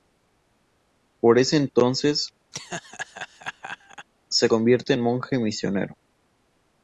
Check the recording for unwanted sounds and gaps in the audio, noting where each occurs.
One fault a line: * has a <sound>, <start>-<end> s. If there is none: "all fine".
* has a laugh, 2.5-4.1 s